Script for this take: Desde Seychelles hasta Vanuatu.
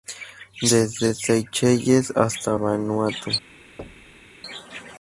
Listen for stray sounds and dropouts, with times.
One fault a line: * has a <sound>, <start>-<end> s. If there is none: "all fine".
* has a thud, 3.8-4.3 s